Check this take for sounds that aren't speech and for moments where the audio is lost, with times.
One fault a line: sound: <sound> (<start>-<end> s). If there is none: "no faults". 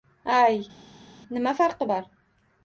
no faults